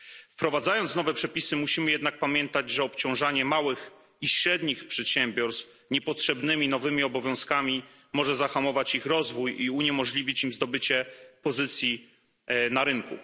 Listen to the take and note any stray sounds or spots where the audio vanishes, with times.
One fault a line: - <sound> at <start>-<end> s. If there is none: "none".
none